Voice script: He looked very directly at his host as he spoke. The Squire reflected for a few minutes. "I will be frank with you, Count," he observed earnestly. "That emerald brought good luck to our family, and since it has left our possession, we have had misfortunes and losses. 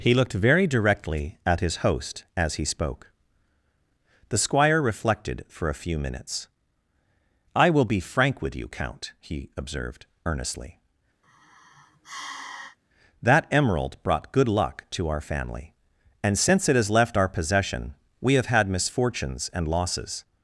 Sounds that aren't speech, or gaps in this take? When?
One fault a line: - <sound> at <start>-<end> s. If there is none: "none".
- sigh at 11.2-12.8 s